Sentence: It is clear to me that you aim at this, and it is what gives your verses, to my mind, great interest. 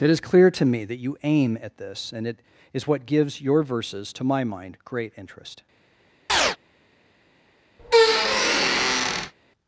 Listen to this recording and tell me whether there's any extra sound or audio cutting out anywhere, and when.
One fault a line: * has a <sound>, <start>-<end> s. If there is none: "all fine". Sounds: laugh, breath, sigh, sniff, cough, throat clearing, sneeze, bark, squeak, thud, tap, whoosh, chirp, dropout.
* has a chirp, 6.3-6.6 s
* has a squeak, 7.8-9.3 s